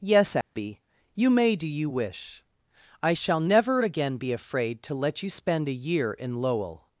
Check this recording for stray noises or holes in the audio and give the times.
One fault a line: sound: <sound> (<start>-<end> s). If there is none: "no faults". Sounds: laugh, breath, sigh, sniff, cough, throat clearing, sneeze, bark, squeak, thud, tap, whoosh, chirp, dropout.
sound: dropout (0.4-0.6 s)